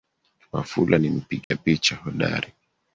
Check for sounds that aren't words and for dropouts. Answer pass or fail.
fail